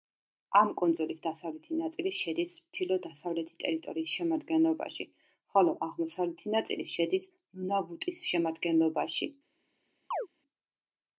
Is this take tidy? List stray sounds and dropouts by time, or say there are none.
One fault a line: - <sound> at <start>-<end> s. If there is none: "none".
- chirp at 10.1-10.3 s